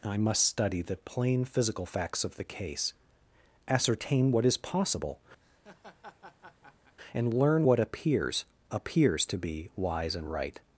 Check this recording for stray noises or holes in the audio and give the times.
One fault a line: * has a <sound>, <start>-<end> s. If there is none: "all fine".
* has a laugh, 5.4-7.0 s